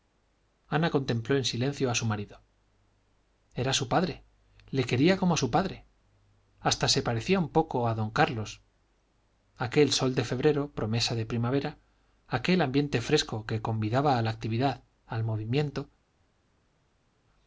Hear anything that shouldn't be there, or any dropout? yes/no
no